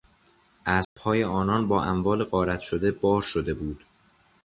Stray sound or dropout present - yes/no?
yes